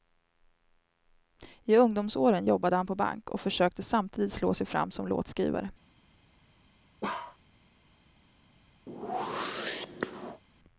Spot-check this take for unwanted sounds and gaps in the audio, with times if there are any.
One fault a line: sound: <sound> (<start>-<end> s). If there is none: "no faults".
sound: bark (7.0-7.4 s)
sound: whoosh (8.9-10.4 s)